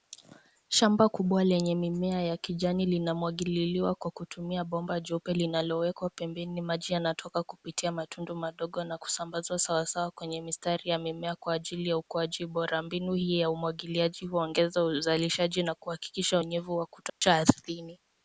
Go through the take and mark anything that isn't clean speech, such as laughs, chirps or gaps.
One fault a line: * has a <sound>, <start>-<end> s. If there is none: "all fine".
* has a dropout, 17.1-17.2 s